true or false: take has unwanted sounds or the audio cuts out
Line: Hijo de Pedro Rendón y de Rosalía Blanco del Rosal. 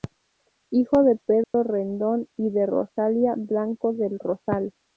true